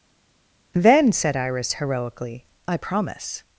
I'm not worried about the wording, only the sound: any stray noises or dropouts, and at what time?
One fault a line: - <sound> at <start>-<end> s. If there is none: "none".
none